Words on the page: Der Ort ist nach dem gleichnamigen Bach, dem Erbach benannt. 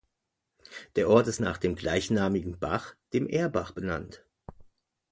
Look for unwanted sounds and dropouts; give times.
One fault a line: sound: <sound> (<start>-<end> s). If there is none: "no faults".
no faults